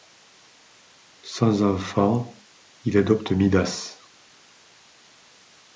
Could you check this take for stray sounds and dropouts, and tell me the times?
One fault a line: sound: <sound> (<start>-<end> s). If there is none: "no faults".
no faults